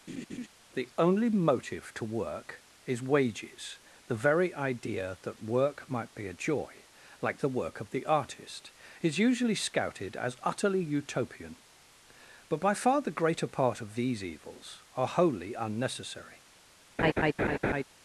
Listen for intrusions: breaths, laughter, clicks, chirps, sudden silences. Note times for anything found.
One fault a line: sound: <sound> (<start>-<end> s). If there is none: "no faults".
sound: laugh (0.1-0.5 s)
sound: laugh (17.0-17.8 s)